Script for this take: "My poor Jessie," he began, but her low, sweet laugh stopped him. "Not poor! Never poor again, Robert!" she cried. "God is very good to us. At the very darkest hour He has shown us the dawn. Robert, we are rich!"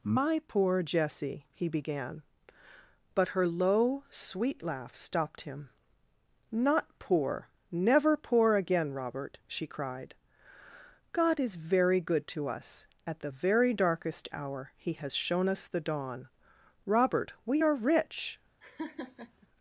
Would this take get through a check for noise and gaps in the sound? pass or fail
fail